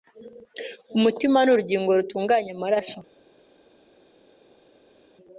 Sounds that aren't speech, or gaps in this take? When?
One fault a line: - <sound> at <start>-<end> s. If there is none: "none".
none